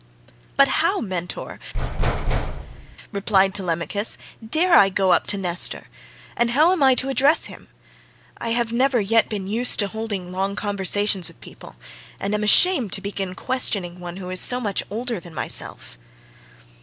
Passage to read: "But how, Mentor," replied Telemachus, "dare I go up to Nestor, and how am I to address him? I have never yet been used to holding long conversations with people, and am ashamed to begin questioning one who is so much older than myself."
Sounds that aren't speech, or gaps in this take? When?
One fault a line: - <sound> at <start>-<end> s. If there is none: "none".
- thud at 1.7-3.0 s